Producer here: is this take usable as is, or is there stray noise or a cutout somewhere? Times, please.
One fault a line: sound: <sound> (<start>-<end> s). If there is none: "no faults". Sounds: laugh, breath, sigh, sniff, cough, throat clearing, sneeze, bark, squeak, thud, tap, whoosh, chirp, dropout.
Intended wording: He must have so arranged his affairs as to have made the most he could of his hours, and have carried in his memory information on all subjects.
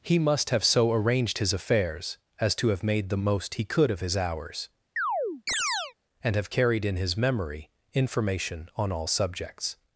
sound: chirp (5.0-5.9 s)